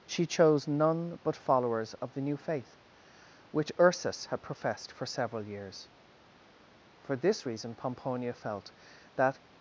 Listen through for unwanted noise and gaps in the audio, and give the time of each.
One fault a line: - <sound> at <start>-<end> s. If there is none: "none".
none